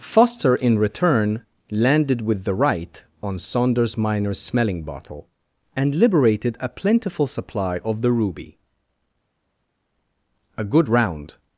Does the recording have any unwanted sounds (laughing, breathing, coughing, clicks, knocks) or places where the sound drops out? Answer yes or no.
no